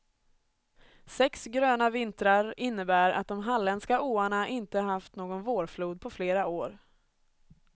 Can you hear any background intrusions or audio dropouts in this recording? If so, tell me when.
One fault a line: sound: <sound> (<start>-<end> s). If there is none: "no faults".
no faults